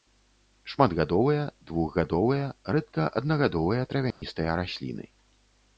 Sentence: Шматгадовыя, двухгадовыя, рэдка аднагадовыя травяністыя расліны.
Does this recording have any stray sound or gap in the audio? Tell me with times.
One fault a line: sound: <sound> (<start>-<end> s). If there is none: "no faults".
sound: dropout (4.1-4.2 s)